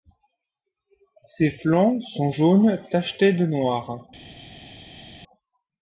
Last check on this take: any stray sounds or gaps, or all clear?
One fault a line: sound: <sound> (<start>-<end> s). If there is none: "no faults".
no faults